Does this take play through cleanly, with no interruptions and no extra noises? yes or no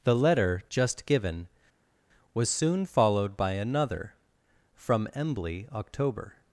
yes